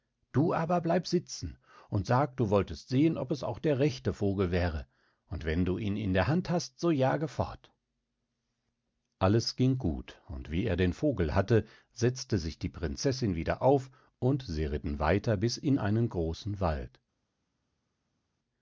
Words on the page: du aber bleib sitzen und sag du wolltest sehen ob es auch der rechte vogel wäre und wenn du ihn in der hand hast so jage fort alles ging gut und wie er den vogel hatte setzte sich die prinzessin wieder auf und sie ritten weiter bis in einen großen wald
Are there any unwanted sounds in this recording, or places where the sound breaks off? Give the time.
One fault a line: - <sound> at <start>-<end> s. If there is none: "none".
none